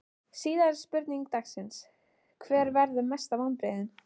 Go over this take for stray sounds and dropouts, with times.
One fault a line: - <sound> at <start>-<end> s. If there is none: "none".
none